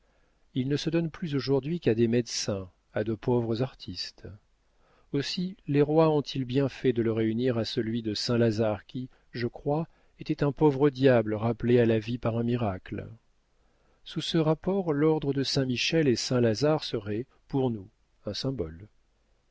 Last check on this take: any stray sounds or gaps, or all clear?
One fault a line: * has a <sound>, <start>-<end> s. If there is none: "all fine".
all fine